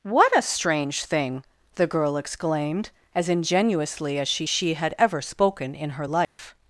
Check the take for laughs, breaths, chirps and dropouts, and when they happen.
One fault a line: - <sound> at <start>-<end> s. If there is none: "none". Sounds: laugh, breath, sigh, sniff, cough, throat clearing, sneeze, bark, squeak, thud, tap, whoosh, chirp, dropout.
- dropout at 6.2-6.4 s